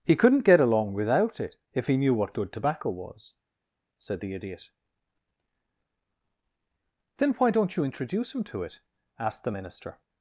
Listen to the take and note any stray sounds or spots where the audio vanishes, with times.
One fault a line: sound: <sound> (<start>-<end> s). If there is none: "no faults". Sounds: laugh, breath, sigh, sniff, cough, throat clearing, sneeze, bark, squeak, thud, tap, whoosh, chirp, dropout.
no faults